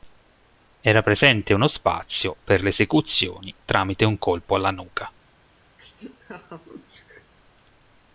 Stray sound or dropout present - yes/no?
yes